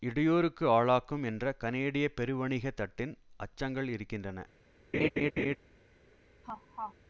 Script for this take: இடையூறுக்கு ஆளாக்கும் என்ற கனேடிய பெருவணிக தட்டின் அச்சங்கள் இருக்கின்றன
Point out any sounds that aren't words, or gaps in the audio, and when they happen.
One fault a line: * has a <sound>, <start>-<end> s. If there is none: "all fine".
* has a laugh, 4.9-5.6 s
* has a laugh, 6.4-6.9 s